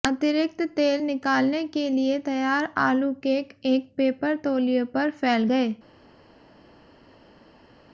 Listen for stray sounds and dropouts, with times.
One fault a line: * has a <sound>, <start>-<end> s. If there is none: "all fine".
all fine